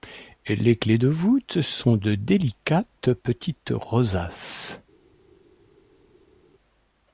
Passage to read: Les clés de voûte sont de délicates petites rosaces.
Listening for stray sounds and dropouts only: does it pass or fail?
pass